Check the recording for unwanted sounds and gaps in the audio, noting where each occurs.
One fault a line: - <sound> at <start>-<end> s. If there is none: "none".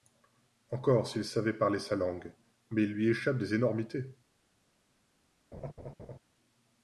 - laugh at 5.5-6.2 s